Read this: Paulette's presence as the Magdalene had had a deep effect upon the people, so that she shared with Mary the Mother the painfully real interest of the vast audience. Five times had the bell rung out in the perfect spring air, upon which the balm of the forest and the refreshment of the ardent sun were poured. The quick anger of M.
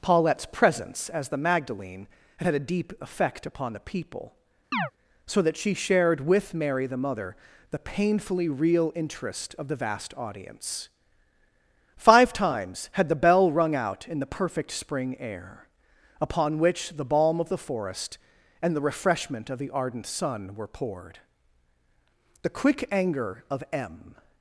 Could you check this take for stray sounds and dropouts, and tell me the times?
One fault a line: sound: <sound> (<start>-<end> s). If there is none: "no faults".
sound: chirp (4.7-4.9 s)